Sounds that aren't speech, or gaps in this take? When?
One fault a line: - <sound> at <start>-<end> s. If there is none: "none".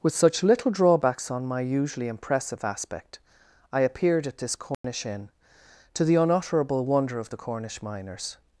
- dropout at 4.7-4.8 s